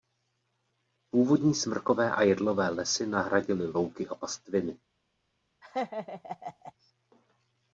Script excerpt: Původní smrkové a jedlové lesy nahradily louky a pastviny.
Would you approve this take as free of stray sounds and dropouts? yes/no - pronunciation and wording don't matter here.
no